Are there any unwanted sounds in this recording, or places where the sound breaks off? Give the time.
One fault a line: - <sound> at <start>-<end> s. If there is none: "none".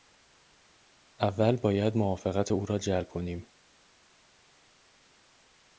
none